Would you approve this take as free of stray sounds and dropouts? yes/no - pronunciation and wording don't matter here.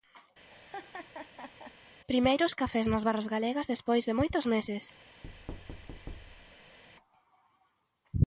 no